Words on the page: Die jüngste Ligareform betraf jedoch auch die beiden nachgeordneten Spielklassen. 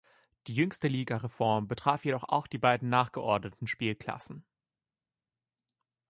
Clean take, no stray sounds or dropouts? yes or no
yes